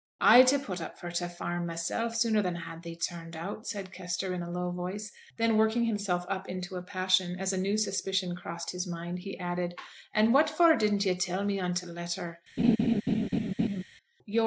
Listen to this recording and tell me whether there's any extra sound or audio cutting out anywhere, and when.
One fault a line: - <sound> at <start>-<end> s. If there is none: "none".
- laugh at 12.6-13.8 s